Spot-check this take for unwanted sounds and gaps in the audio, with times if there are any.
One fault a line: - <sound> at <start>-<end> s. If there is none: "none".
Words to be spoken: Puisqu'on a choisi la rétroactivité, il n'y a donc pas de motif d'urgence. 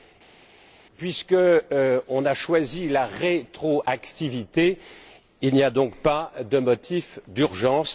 none